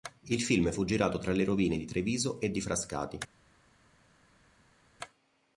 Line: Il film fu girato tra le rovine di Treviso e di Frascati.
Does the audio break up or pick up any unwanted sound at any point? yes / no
no